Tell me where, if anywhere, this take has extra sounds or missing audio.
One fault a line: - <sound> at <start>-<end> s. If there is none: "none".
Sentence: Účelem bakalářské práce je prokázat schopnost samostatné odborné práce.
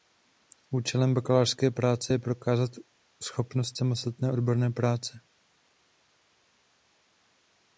none